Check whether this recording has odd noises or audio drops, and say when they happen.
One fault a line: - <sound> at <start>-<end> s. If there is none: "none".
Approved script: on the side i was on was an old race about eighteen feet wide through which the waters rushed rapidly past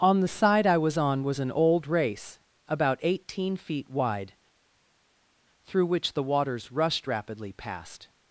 none